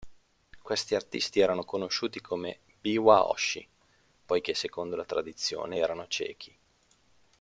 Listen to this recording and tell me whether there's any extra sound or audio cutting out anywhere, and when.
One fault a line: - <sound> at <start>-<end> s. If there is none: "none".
none